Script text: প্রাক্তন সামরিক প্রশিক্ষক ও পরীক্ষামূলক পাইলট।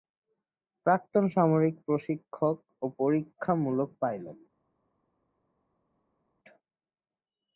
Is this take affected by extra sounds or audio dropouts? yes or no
no